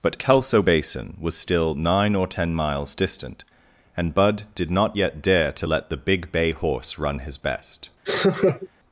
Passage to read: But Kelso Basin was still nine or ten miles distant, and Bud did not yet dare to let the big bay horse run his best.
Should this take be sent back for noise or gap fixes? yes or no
yes